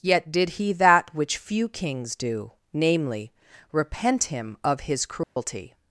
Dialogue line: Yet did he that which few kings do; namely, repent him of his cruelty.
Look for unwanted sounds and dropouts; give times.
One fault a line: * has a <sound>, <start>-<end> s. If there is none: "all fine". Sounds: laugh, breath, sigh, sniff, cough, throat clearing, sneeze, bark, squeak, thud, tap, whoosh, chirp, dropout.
* has a dropout, 5.2-5.4 s